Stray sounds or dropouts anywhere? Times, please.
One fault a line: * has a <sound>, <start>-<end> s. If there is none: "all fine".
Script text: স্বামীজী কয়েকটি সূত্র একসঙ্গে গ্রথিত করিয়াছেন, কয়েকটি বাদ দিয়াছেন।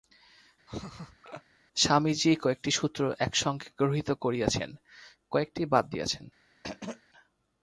* has a laugh, 0.7-1.4 s
* has a throat clearing, 6.6-7.0 s